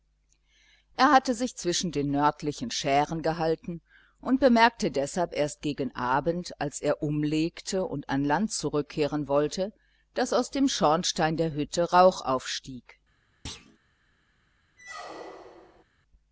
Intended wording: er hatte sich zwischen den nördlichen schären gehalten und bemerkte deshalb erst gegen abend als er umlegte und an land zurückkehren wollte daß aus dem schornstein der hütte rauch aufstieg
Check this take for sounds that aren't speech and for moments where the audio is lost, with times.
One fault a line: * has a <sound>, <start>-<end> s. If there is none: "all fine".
* has a thud, 13.5-13.8 s
* has a squeak, 14.8-15.8 s